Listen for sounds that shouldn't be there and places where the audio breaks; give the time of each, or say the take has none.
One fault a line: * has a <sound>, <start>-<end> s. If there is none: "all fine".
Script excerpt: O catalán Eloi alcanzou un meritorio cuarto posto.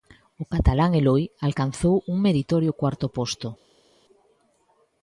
all fine